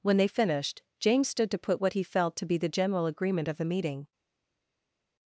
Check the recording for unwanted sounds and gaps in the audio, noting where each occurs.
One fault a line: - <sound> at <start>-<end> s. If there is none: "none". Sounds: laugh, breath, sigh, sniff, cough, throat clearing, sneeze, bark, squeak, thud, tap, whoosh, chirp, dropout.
none